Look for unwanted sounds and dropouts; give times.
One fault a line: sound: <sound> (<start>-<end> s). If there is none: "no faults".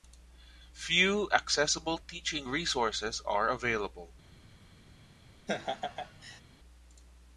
sound: laugh (5.5-6.4 s)